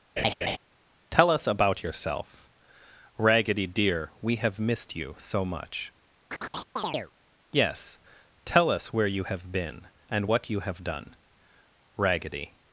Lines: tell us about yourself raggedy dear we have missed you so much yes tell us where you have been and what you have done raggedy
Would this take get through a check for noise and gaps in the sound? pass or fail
fail